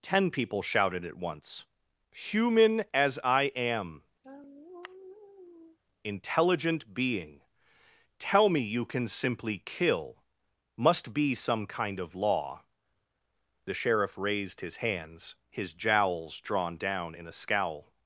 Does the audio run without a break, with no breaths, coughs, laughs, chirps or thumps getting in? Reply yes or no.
no